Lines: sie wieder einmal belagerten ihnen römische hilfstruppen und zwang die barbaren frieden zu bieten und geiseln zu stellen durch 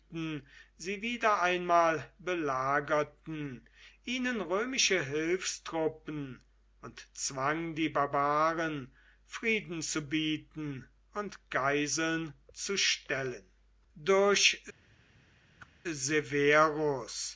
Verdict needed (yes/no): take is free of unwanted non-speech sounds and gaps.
no